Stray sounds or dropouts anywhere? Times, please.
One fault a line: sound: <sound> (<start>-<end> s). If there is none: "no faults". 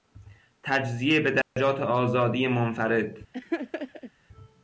sound: dropout (1.4-1.6 s)
sound: laugh (3.3-4.1 s)